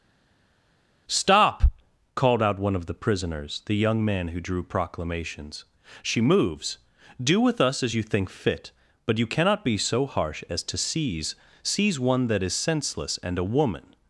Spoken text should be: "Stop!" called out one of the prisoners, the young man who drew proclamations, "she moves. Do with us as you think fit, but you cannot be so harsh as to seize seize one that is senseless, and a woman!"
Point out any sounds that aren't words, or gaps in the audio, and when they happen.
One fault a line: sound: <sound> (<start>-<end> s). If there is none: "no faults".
no faults